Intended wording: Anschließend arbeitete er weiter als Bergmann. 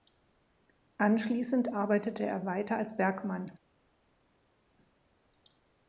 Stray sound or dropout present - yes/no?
no